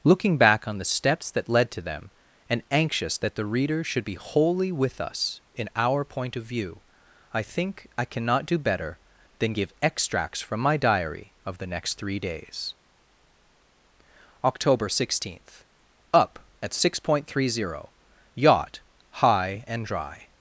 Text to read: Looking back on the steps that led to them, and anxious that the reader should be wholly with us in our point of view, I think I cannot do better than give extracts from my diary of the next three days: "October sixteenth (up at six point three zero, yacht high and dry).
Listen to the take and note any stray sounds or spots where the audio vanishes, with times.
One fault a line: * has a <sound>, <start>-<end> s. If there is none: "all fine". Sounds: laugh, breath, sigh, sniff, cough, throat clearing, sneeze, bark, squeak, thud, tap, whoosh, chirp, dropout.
all fine